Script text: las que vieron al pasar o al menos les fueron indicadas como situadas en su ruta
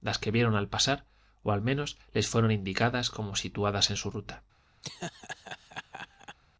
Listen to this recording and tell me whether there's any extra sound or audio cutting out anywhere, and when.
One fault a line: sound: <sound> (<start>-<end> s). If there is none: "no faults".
sound: laugh (4.8-6.4 s)